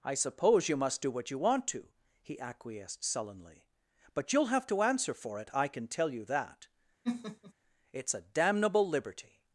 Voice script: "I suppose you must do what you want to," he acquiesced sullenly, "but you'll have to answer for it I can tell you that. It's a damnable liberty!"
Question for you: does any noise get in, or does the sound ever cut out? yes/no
yes